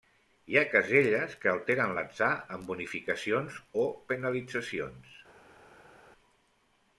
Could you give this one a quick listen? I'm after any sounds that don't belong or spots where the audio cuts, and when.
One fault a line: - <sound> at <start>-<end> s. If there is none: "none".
none